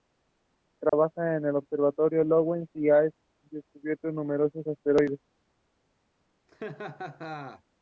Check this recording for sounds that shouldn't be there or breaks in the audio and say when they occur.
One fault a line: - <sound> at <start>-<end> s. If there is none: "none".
- dropout at 0.9-0.9 s
- laugh at 6.5-7.6 s